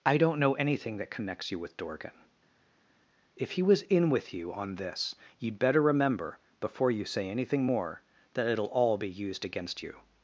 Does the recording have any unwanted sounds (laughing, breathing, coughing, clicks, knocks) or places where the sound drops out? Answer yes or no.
no